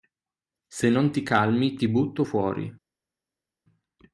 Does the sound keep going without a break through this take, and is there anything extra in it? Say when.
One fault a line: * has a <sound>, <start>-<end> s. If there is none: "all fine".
all fine